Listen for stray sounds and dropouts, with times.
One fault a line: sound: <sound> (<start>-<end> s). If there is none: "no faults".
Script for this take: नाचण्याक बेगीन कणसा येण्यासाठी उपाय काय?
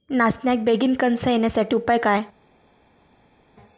no faults